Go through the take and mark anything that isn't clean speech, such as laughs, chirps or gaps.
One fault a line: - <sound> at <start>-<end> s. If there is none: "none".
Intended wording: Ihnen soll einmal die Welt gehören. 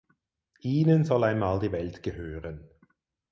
none